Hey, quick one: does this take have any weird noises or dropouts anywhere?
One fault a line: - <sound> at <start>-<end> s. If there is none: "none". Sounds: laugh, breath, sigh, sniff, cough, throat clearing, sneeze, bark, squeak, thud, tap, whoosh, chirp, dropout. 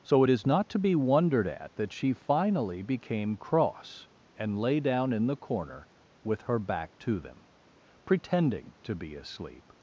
none